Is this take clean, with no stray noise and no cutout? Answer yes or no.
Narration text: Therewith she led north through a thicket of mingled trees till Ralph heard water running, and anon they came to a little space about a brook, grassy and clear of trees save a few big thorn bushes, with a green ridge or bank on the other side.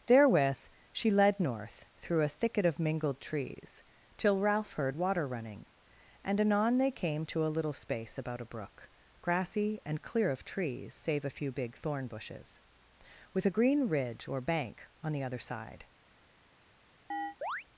no